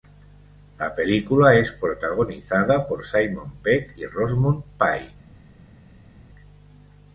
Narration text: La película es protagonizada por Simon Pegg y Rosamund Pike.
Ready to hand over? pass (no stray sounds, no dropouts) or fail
pass